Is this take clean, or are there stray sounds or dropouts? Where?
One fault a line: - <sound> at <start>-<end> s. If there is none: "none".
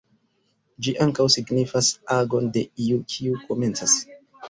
none